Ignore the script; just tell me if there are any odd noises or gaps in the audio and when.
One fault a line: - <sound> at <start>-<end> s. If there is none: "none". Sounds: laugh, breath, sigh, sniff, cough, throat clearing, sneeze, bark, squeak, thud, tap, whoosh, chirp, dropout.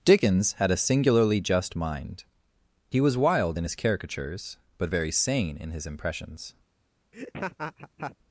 - laugh at 7.1-8.2 s